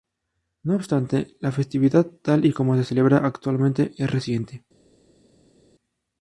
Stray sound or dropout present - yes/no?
no